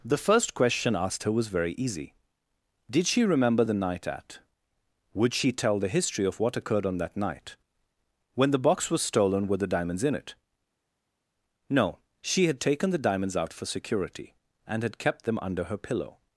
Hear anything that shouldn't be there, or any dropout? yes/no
no